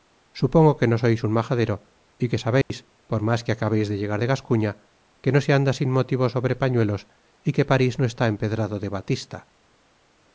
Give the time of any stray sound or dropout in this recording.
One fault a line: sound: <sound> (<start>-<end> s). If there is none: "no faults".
sound: dropout (2.6-2.7 s)